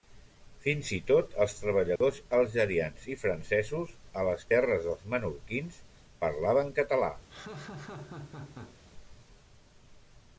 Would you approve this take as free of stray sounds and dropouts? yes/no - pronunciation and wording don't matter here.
no